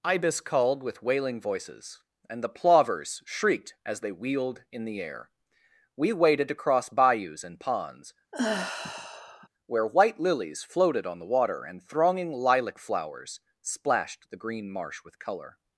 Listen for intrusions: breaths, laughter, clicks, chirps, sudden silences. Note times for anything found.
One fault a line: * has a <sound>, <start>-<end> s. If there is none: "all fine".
* has a sigh, 8.3-9.5 s